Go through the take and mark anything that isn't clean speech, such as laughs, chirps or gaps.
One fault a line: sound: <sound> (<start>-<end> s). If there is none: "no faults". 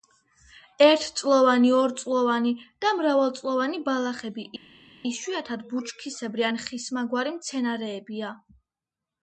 no faults